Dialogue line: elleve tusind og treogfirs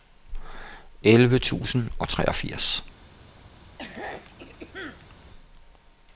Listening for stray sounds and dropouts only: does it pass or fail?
fail